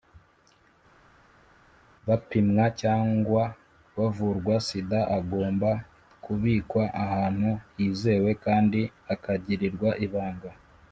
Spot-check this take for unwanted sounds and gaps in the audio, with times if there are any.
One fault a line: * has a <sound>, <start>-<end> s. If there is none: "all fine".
all fine